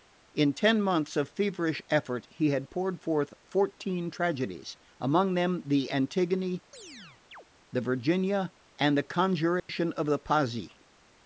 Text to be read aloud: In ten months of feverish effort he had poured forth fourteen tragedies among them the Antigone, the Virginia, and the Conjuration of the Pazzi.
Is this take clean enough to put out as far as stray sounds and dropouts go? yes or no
no